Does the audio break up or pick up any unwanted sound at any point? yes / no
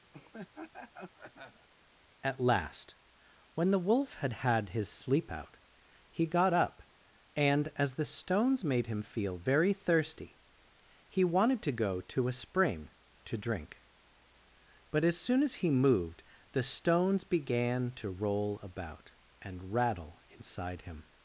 yes